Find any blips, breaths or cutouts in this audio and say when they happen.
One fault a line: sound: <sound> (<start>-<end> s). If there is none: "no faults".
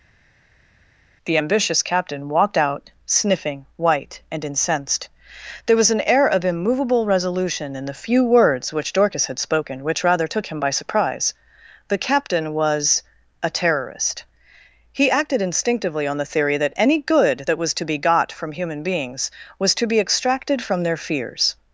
no faults